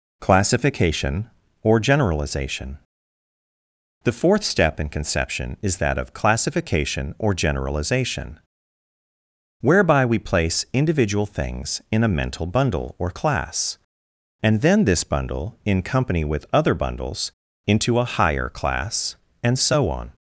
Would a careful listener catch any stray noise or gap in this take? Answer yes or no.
no